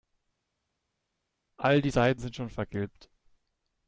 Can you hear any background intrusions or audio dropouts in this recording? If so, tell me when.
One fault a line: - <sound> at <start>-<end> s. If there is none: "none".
none